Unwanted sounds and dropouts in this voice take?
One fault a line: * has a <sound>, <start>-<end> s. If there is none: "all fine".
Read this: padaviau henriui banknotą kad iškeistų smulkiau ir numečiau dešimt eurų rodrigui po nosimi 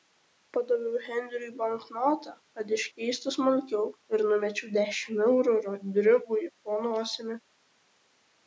all fine